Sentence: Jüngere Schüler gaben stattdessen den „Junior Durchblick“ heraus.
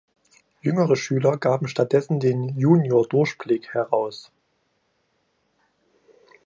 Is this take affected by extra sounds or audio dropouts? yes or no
no